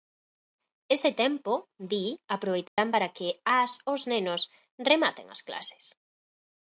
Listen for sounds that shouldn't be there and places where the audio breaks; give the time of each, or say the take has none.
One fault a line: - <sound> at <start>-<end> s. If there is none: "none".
- dropout at 2.7-2.8 s